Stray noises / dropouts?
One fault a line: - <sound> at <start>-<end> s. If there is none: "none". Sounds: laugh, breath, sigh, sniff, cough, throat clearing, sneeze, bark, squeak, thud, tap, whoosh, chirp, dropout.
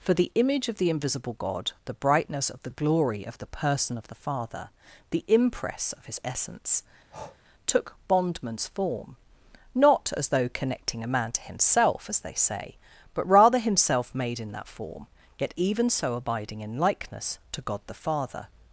- breath at 7.1-7.4 s